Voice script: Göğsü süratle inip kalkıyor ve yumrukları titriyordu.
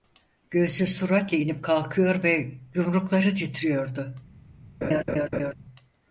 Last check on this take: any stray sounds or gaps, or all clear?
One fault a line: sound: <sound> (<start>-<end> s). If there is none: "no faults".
sound: laugh (4.8-5.5 s)